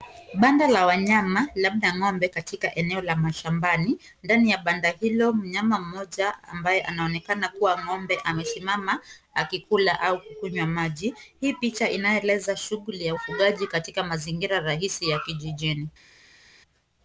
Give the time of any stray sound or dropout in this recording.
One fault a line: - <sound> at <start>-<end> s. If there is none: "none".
none